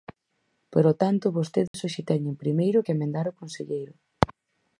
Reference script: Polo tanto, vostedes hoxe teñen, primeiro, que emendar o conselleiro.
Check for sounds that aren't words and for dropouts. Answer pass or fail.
fail